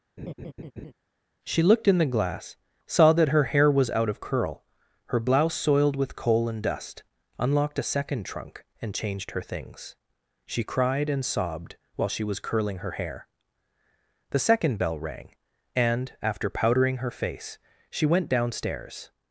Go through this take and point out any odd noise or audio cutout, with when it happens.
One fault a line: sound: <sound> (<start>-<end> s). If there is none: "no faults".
sound: laugh (0.2-0.9 s)